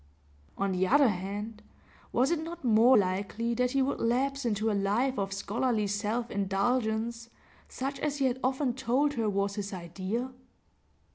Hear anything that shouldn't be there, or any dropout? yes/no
no